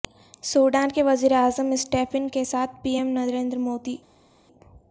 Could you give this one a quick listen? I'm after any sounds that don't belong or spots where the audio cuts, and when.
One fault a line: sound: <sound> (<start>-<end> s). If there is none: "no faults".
no faults